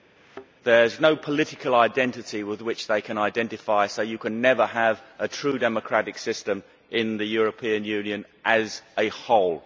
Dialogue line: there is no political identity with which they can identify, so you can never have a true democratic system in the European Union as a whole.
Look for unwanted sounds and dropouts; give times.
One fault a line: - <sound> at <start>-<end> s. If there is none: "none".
- thud at 0.2-0.5 s